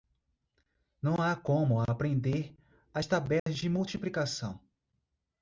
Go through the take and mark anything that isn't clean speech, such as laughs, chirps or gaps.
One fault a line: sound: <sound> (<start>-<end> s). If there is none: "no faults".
sound: dropout (3.4-3.5 s)